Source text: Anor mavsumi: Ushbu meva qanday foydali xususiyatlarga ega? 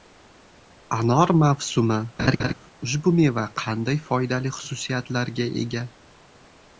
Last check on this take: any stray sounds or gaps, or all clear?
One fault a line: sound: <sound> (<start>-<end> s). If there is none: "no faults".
sound: laugh (2.2-2.5 s)